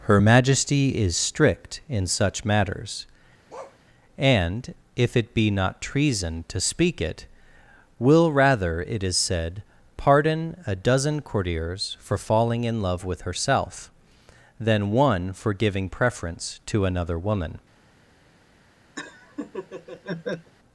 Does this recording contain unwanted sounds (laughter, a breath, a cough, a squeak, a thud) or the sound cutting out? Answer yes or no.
yes